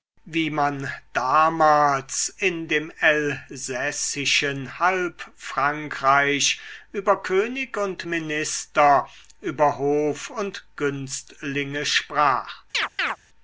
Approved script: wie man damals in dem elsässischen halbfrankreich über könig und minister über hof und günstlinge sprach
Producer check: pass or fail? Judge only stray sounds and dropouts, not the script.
fail